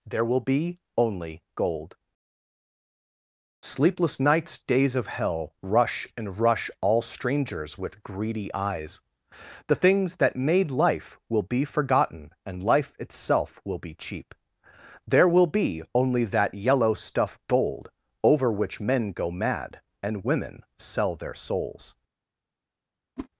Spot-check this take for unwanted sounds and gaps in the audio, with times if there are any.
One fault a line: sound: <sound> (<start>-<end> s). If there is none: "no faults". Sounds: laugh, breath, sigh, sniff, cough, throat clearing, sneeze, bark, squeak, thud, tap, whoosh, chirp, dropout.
sound: whoosh (23.2-23.3 s)